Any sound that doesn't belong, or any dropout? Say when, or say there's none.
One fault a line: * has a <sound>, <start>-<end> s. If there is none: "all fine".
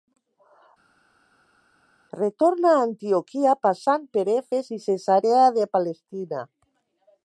all fine